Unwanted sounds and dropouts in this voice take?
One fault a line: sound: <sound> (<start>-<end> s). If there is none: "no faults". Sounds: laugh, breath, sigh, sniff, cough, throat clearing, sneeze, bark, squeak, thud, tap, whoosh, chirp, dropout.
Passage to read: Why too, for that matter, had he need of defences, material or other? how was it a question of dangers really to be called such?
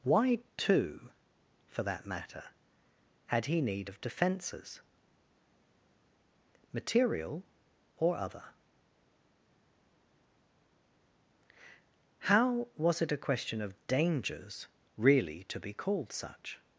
no faults